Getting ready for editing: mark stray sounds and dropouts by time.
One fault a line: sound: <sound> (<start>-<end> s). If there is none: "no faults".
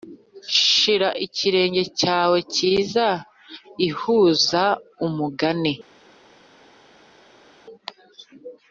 no faults